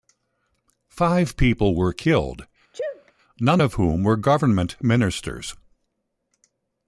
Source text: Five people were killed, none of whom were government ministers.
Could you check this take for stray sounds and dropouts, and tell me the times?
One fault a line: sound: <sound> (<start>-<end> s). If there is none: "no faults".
sound: sneeze (2.7-3.1 s)